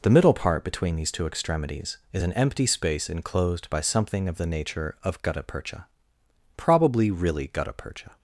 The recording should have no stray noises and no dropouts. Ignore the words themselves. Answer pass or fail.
pass